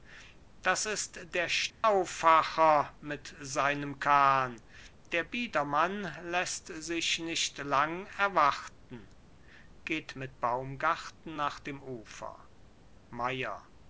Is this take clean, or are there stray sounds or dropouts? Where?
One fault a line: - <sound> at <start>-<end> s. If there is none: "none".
- dropout at 1.7-1.8 s